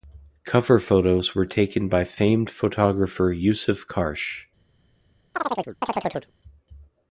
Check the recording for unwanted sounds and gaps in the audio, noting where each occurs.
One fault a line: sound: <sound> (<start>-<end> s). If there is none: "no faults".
sound: chirp (5.3-6.3 s)